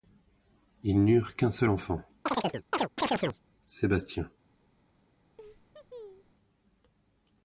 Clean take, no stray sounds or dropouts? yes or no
no